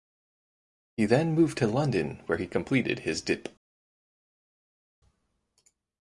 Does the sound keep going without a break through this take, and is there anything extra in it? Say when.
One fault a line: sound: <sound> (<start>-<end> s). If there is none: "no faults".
no faults